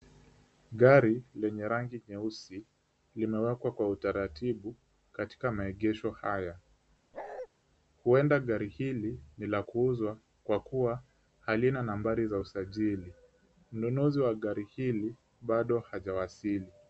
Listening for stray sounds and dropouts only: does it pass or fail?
fail